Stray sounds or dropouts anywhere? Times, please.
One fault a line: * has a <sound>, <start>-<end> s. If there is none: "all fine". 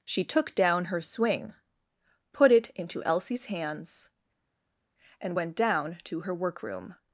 all fine